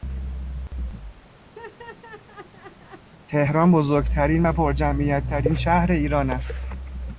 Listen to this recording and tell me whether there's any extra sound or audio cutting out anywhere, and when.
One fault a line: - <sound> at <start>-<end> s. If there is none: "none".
- laugh at 1.5-3.1 s